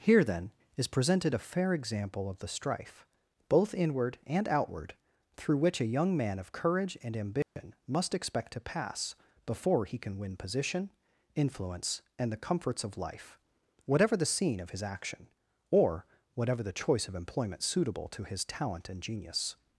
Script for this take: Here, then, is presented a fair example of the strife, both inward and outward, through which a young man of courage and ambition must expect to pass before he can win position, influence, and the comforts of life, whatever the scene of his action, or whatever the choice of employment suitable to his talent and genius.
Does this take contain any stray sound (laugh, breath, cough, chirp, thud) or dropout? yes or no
yes